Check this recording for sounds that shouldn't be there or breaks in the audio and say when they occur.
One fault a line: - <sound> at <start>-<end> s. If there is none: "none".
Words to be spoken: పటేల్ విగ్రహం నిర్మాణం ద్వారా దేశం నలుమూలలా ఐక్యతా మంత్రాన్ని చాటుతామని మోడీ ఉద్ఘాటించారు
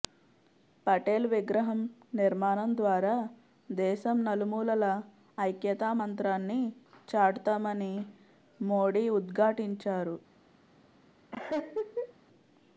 - laugh at 11.3-12.1 s